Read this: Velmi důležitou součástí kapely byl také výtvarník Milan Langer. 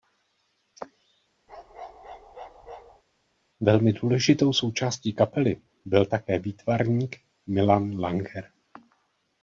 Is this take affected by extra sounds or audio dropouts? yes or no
yes